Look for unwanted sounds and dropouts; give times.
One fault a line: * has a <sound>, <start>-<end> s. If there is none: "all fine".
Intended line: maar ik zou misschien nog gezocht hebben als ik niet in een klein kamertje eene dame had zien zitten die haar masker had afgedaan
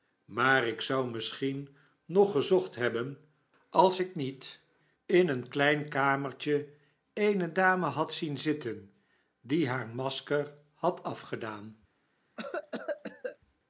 * has a cough, 12.4-13.4 s